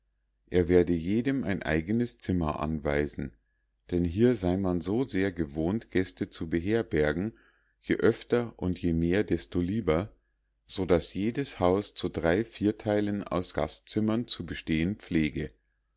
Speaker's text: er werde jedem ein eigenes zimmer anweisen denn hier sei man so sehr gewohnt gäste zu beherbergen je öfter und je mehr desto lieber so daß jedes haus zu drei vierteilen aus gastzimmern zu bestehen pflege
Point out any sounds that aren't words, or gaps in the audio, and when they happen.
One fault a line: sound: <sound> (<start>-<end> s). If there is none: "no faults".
no faults